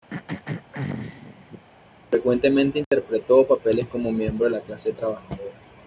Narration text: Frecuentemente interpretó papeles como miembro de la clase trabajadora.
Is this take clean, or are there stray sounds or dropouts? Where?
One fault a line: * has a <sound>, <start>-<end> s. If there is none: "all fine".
* has a throat clearing, 0.1-1.7 s
* has a dropout, 2.8-2.9 s